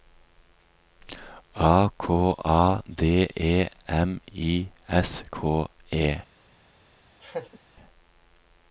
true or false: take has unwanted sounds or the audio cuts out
true